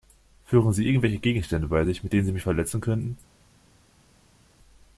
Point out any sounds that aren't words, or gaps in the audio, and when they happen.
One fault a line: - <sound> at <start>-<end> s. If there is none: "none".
none